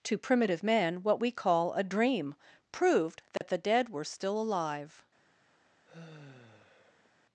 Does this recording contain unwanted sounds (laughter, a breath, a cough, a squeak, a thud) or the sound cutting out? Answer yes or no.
yes